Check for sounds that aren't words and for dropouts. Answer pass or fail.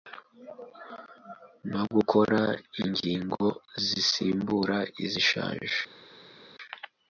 pass